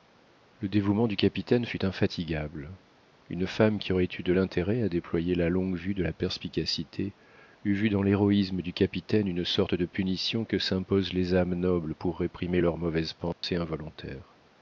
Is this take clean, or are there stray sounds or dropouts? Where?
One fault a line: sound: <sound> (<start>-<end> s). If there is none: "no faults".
sound: dropout (13.3-13.4 s)